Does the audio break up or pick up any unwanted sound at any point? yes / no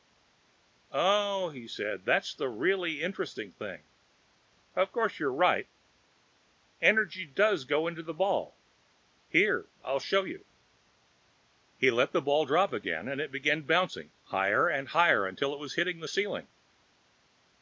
no